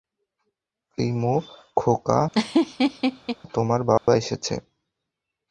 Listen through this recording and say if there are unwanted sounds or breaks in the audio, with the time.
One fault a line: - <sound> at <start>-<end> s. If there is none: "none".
- laugh at 2.3-3.4 s
- dropout at 4.0-4.1 s